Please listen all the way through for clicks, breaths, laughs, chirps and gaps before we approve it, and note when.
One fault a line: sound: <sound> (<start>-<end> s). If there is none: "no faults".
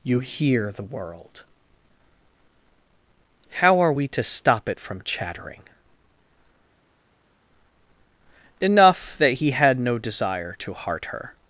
no faults